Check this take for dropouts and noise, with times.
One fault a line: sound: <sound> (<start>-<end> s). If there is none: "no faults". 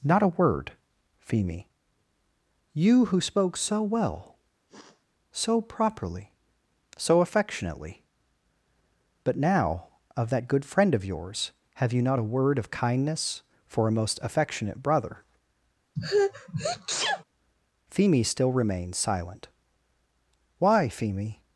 sound: sniff (4.7-5.0 s)
sound: sneeze (16.0-17.2 s)